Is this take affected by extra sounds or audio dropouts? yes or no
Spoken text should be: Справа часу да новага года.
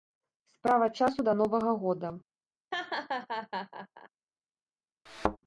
yes